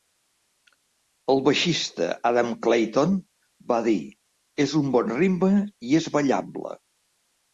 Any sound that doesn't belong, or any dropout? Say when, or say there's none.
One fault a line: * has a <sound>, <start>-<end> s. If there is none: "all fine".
all fine